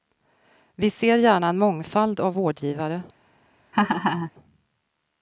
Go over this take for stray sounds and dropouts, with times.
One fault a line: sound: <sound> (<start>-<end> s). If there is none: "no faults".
sound: laugh (3.7-4.3 s)